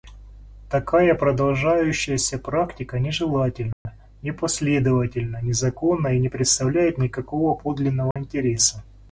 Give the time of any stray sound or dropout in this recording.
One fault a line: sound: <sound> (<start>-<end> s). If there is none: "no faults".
sound: dropout (3.7-3.9 s)
sound: dropout (8.1-8.2 s)